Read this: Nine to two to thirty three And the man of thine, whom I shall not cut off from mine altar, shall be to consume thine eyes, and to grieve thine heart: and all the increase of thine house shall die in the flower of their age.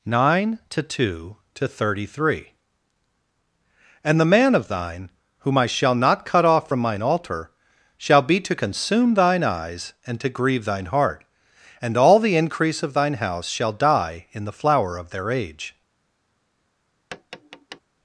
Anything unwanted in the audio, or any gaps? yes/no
yes